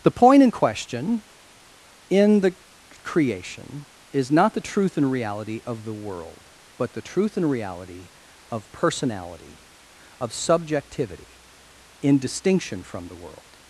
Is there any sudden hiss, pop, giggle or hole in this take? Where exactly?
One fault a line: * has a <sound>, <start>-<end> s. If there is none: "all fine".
all fine